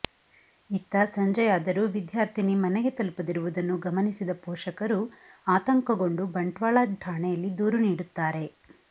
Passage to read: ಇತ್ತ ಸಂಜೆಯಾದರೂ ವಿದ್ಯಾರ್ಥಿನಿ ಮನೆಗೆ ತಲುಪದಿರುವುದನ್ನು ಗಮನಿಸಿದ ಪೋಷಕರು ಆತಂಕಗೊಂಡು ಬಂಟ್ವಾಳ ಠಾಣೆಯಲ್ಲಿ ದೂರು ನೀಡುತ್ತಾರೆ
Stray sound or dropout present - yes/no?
no